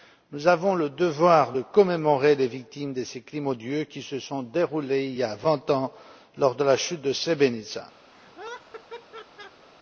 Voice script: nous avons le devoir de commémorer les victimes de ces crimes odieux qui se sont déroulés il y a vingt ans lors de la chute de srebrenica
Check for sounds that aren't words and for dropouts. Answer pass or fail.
fail